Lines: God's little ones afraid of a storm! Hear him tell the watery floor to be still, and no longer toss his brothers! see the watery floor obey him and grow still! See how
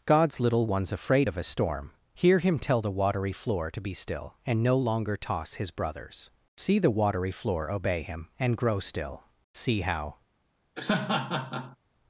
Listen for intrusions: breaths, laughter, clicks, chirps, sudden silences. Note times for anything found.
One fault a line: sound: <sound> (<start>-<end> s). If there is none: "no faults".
sound: laugh (10.8-11.8 s)